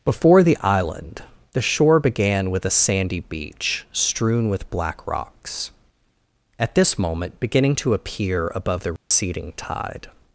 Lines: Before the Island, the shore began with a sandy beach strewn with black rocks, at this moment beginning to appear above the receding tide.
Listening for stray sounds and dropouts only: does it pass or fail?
fail